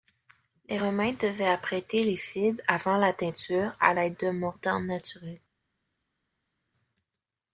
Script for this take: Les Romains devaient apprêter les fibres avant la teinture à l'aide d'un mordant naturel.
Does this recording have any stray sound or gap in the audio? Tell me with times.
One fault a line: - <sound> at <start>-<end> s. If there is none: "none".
none